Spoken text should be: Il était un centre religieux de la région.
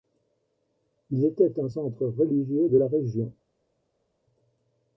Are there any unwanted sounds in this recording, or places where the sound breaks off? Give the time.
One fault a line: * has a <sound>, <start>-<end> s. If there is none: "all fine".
all fine